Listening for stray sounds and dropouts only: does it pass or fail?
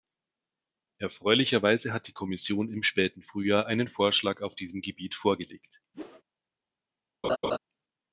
fail